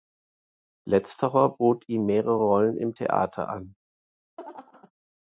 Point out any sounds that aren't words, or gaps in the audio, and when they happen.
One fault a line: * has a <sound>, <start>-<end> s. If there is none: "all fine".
* has a laugh, 4.4-4.9 s